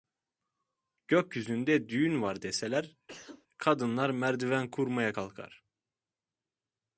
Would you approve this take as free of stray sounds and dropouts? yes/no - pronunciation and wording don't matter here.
no